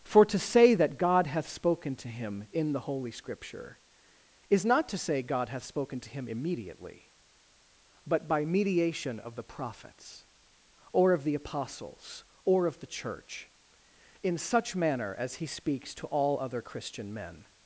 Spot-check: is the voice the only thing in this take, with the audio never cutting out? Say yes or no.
yes